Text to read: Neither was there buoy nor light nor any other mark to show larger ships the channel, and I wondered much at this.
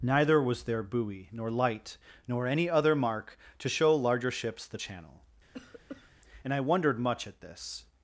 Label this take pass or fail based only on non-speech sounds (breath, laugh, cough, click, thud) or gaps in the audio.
fail